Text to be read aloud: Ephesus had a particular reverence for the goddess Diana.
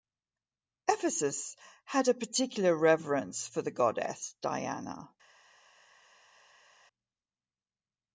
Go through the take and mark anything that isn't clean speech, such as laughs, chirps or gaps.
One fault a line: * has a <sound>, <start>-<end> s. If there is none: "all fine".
all fine